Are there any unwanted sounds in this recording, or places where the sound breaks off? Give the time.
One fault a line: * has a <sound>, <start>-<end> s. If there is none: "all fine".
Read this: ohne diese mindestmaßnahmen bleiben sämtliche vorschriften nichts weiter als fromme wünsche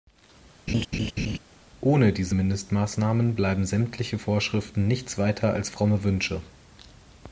* has a laugh, 0.7-1.4 s